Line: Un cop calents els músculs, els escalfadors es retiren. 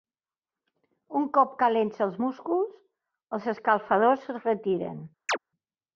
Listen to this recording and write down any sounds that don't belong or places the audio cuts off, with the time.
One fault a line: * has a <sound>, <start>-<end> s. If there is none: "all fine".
* has a chirp, 5.3-5.4 s